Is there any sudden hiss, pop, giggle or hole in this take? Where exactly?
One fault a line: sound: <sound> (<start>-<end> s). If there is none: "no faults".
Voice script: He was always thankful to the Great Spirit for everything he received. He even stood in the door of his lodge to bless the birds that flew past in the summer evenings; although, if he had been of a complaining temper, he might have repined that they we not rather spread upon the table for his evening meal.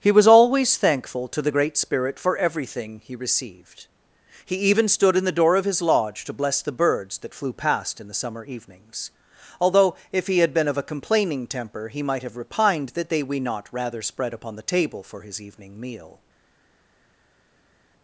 no faults